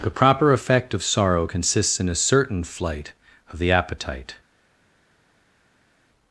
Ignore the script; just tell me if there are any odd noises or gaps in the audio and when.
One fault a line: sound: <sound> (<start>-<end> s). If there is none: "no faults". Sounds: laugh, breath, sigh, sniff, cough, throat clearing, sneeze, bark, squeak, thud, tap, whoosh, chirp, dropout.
no faults